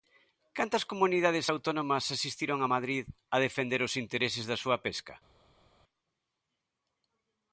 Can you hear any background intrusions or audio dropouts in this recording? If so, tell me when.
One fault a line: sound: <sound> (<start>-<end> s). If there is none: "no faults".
no faults